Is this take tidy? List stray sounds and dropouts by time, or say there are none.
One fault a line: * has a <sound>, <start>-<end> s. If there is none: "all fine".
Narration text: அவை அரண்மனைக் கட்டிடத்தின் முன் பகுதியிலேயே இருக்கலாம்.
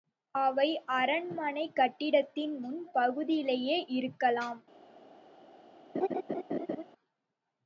* has a laugh, 5.9-6.8 s